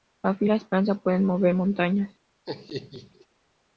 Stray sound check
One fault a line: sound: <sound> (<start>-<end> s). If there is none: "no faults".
sound: laugh (2.4-3.3 s)